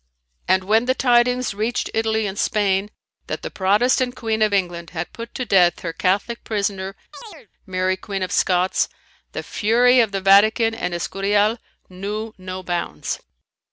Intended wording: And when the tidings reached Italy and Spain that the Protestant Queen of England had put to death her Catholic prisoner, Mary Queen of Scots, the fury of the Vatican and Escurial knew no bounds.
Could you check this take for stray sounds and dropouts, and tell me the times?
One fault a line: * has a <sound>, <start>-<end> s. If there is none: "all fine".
* has a chirp, 7.1-7.5 s